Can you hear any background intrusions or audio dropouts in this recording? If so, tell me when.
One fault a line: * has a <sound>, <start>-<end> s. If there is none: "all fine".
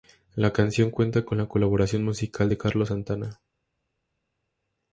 all fine